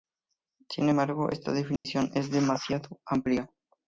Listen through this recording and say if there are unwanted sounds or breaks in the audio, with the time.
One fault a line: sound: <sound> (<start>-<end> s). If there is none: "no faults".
sound: dropout (1.8-1.9 s)